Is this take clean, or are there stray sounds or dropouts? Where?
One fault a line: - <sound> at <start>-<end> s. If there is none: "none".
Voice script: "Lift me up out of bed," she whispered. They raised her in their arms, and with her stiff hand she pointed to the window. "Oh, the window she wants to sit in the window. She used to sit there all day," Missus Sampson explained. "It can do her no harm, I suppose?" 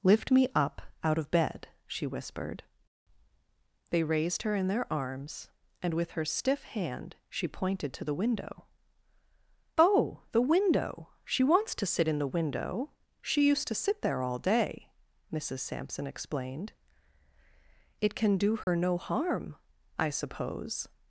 - dropout at 18.6-18.7 s